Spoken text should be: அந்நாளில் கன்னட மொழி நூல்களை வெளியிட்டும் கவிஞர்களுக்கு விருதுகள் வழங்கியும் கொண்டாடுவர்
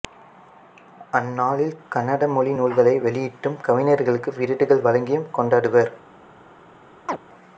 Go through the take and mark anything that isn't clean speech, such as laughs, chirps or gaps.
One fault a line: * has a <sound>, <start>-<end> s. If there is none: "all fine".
* has a chirp, 7.1-7.2 s